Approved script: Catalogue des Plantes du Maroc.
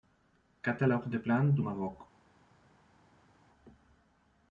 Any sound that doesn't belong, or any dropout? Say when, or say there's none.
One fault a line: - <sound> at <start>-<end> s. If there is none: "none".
none